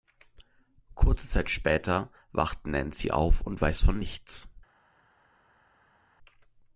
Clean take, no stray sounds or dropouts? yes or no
yes